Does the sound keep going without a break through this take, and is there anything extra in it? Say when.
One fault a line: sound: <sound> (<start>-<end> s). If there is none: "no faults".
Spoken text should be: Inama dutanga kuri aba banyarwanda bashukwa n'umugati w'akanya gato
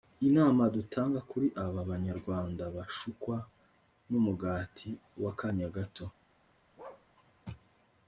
sound: bark (6.8-7.1 s)